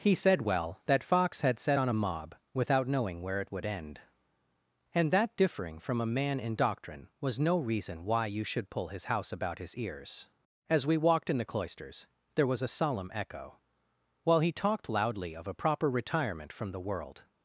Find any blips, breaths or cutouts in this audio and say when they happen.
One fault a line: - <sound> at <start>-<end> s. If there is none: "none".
none